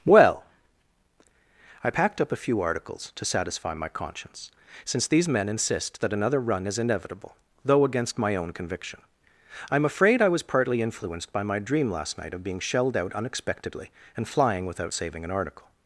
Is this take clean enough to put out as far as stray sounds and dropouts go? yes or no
yes